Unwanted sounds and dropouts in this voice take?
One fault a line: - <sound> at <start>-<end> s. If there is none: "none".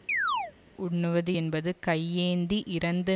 - chirp at 0.1-0.5 s